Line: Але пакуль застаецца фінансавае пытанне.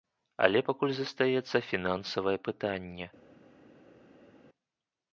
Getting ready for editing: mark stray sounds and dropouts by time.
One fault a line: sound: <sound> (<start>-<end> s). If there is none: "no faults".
no faults